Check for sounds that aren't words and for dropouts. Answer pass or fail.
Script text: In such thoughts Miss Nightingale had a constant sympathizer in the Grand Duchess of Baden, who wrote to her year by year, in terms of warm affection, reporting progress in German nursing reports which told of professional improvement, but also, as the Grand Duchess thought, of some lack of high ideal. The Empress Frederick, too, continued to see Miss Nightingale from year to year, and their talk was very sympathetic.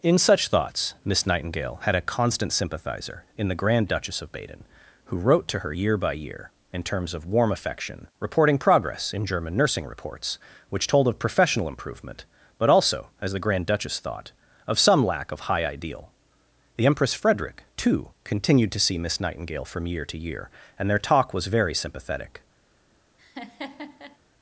fail